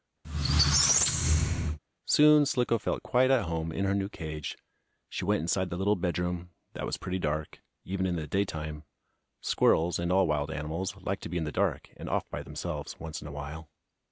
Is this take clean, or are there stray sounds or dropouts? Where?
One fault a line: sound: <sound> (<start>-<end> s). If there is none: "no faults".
sound: squeak (0.2-1.8 s)